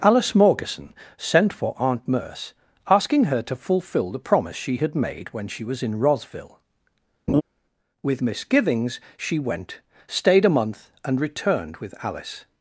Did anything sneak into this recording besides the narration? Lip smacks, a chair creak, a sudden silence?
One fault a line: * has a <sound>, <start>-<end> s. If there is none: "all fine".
* has a laugh, 7.3-7.4 s